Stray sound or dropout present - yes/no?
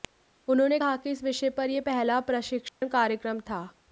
yes